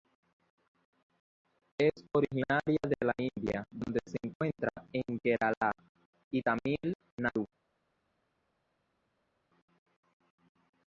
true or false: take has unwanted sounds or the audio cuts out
false